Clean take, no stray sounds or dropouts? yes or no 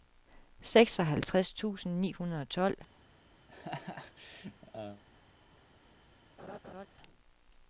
no